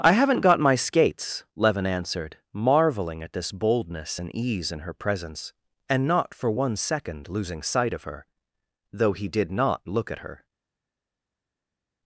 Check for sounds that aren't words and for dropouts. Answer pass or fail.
pass